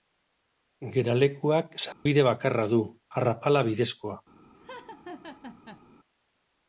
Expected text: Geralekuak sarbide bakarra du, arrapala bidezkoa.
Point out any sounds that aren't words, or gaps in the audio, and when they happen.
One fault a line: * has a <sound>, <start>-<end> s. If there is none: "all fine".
* has a dropout, 1.9-2.1 s
* has a laugh, 4.5-5.8 s